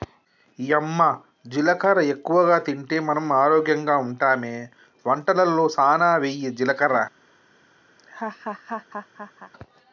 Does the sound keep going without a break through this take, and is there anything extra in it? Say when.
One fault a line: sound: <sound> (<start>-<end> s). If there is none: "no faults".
sound: laugh (8.0-9.5 s)